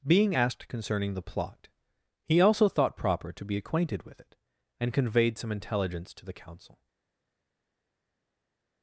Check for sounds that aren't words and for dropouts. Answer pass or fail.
pass